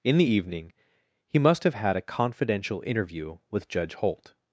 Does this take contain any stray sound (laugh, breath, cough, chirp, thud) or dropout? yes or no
no